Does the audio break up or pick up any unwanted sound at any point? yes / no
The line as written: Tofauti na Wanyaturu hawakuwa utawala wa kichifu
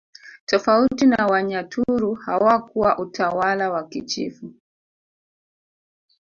no